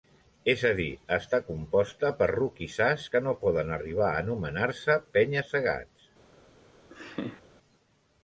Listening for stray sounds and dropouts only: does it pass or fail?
fail